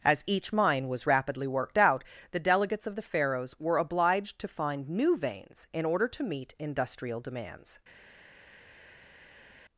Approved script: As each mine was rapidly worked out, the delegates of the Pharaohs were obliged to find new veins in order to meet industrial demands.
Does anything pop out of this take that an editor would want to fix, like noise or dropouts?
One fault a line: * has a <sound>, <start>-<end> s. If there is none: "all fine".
all fine